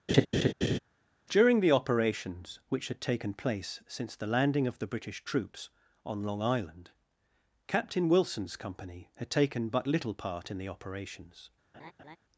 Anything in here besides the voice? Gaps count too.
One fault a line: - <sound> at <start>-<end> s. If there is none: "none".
- laugh at 0.1-0.8 s
- laugh at 11.7-12.2 s